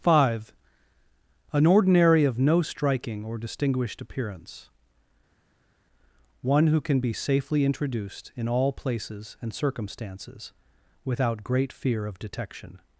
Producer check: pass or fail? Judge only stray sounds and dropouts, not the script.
pass